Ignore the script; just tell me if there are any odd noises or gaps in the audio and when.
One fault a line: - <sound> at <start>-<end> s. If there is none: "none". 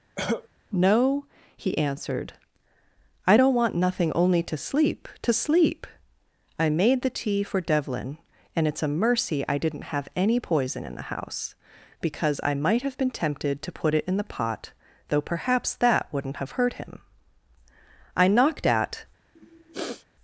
- cough at 0.2-0.5 s
- sniff at 19.4-20.1 s